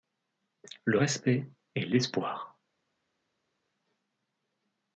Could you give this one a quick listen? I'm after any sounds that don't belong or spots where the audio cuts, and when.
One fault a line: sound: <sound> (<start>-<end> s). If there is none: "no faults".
no faults